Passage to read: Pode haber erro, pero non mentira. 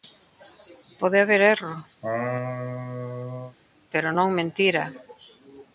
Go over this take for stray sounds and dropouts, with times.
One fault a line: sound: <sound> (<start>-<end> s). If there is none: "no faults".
sound: laugh (2.0-3.6 s)